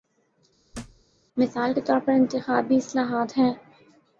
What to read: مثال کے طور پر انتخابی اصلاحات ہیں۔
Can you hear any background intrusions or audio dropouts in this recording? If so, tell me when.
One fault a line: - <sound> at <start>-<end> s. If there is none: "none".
- thud at 0.7-1.0 s